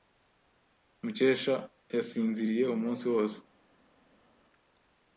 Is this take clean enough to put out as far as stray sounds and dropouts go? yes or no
yes